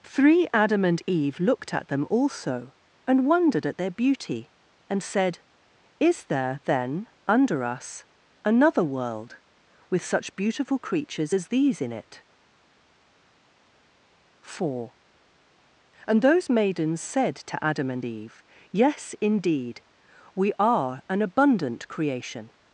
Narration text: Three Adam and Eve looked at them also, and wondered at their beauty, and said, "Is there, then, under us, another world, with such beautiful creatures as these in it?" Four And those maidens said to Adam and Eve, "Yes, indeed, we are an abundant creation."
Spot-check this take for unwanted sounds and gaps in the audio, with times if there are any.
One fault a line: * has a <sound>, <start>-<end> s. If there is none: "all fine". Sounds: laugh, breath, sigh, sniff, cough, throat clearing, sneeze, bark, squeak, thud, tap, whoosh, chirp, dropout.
all fine